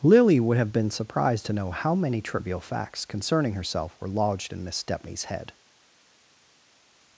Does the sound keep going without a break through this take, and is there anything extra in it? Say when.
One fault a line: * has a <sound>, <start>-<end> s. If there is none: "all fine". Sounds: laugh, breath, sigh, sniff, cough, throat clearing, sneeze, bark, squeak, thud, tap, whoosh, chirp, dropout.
all fine